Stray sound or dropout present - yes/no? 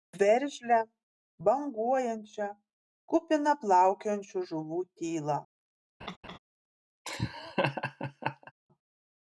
yes